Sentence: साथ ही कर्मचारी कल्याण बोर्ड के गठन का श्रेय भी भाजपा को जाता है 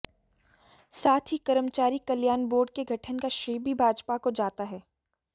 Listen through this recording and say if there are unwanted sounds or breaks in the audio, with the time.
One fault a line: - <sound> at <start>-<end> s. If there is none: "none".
none